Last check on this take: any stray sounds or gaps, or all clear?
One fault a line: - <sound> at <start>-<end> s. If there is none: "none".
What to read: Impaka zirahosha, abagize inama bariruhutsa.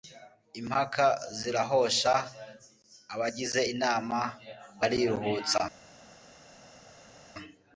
none